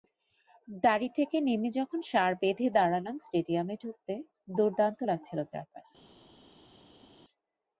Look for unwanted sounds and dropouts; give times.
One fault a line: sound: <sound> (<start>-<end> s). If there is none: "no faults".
no faults